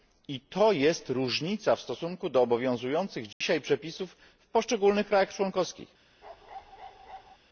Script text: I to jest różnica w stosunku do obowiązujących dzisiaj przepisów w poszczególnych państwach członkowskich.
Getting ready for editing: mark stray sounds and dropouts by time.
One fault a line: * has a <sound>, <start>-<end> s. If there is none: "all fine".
* has a dropout, 3.3-3.4 s
* has a bark, 6.2-7.4 s